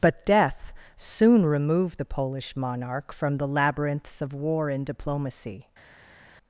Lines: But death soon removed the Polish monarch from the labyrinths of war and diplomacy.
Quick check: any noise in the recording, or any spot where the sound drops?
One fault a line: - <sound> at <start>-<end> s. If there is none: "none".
none